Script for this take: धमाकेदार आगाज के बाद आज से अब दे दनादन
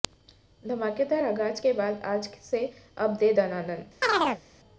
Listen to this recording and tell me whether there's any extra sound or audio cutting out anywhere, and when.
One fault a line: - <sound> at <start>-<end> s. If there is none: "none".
- chirp at 4.0-4.4 s